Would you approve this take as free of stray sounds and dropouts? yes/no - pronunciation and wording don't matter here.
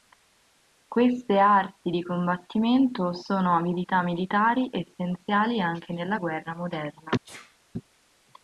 no